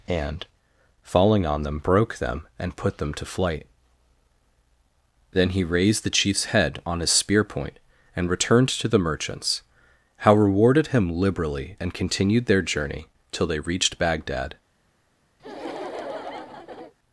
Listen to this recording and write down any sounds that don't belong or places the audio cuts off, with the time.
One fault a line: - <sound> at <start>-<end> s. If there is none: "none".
- laugh at 15.4-16.9 s